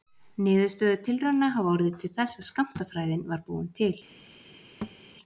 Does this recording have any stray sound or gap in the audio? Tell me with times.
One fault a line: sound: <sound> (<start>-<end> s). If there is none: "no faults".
sound: thud (4.8-5.0 s)